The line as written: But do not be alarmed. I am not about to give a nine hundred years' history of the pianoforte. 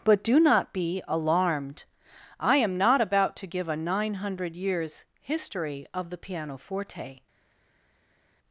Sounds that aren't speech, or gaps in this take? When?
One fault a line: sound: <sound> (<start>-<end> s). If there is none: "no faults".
no faults